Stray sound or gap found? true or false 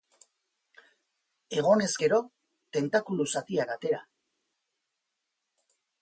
false